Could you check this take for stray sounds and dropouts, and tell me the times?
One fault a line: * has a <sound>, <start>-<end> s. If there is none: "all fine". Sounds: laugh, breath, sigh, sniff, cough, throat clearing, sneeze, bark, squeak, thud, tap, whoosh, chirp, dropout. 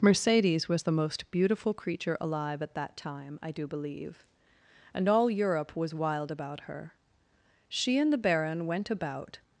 all fine